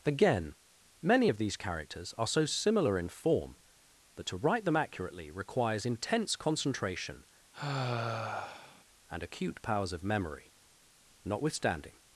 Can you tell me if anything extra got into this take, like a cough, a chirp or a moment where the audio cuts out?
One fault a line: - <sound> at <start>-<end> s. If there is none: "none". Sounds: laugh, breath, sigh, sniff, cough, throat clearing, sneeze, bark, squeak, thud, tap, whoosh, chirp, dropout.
- sigh at 7.5-8.8 s